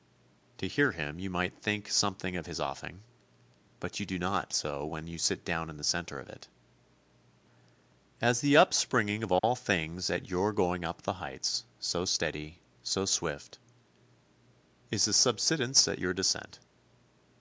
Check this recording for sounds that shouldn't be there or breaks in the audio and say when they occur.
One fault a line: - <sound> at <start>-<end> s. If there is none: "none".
- dropout at 9.4-9.4 s